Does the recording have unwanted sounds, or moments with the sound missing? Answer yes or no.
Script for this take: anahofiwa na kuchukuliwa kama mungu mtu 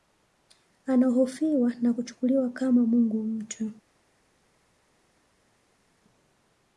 no